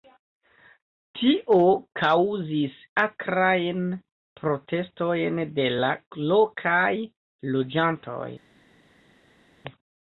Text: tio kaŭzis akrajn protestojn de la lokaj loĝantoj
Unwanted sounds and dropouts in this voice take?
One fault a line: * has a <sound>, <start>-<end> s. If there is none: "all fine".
all fine